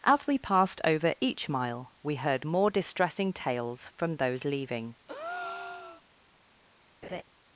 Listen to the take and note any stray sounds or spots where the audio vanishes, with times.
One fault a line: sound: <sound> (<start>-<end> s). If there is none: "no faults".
sound: breath (5.1-6.0 s)
sound: laugh (7.0-7.2 s)